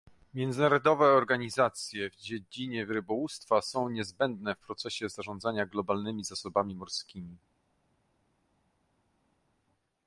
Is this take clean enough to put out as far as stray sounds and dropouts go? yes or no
yes